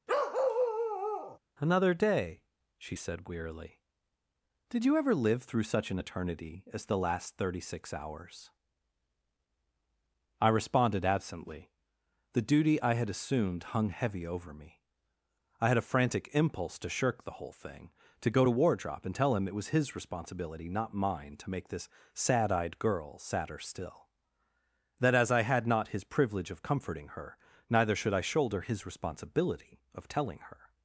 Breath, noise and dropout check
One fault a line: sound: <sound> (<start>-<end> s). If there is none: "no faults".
sound: bark (0.1-1.4 s)